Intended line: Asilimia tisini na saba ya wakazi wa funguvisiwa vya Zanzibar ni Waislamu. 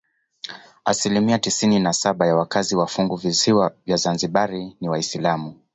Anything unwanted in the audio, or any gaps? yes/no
no